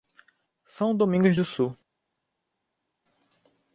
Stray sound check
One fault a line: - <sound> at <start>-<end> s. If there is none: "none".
none